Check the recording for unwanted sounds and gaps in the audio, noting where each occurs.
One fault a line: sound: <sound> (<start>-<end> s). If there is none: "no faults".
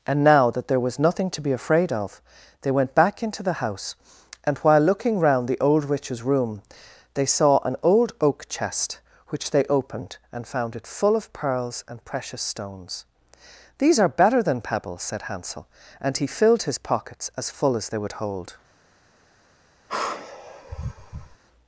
sound: sigh (19.9-21.4 s)